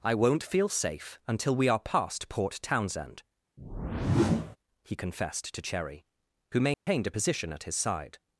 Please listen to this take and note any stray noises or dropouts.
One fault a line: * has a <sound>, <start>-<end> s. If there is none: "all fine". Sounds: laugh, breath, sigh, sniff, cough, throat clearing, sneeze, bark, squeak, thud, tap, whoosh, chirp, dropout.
* has a whoosh, 3.6-4.6 s
* has a dropout, 6.7-6.9 s